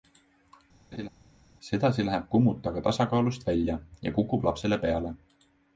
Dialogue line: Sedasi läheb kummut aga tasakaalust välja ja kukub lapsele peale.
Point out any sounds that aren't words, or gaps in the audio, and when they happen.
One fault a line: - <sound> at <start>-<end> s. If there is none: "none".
- laugh at 0.9-1.1 s